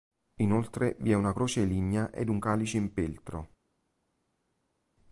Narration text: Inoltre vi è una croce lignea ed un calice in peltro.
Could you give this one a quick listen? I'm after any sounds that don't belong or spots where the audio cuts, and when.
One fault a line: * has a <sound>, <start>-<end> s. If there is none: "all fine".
all fine